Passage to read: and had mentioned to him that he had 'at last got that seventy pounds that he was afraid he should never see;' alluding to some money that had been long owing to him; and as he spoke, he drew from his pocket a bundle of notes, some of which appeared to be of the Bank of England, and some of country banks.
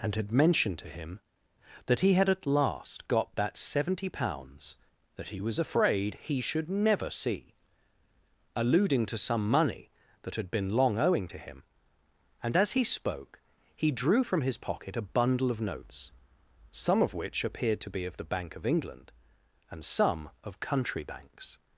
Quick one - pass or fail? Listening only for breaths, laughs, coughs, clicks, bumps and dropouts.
pass